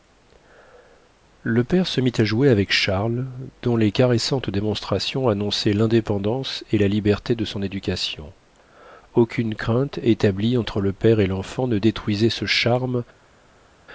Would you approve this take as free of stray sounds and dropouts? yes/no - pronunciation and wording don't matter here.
yes